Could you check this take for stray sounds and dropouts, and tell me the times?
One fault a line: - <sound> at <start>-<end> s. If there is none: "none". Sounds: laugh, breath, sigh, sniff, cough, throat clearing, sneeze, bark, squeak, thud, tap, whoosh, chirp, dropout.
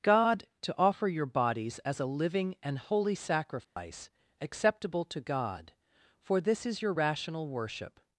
- dropout at 3.6-3.8 s